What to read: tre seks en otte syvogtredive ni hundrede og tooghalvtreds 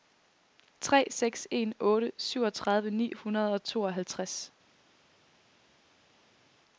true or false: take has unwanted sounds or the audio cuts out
false